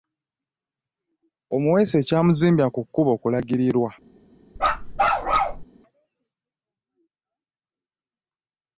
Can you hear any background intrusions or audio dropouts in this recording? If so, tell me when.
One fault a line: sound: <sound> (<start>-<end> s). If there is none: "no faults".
sound: bark (4.6-5.6 s)